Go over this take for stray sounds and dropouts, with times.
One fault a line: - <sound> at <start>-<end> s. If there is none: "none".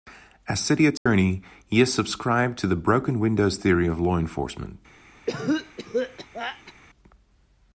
- dropout at 1.0-1.1 s
- cough at 5.3-6.7 s